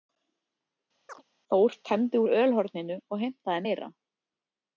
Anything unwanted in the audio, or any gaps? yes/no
yes